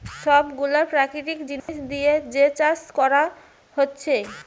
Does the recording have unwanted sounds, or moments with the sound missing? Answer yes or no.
yes